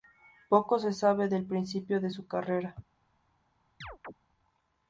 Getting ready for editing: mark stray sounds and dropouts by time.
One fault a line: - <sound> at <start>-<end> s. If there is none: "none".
- chirp at 3.8-4.1 s